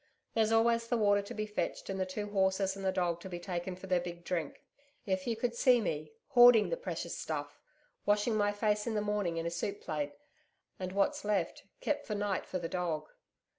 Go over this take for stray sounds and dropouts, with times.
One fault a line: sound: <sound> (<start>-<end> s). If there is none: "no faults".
no faults